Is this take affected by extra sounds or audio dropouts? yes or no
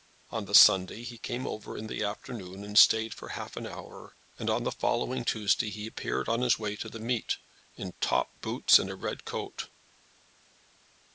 no